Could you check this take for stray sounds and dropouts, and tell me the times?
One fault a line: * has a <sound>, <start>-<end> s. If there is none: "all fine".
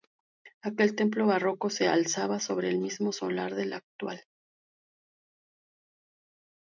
all fine